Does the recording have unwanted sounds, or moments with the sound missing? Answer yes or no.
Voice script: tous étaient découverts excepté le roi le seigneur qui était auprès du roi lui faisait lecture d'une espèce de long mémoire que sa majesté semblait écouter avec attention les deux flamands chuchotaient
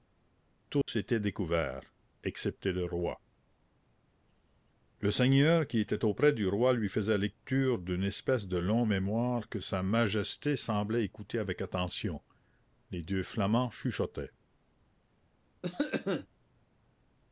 yes